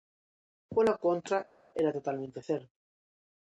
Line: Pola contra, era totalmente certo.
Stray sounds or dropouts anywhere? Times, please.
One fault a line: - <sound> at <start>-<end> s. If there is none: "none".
none